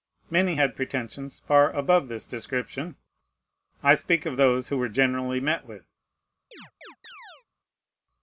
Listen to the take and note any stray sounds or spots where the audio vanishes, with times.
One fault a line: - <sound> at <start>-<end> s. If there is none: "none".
- chirp at 6.5-7.4 s